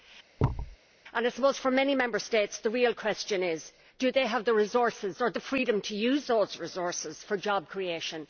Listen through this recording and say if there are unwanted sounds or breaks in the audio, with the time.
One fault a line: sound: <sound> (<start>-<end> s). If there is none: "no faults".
sound: thud (0.4-0.8 s)